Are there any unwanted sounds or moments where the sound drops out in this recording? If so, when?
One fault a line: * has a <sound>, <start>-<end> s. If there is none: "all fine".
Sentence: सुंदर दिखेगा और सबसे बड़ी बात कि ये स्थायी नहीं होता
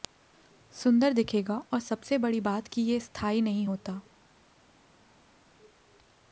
all fine